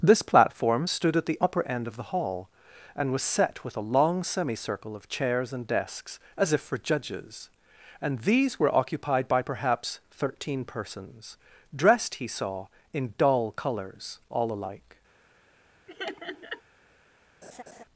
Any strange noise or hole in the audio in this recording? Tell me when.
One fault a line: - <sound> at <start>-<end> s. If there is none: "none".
- laugh at 15.9-16.6 s
- laugh at 17.4-17.8 s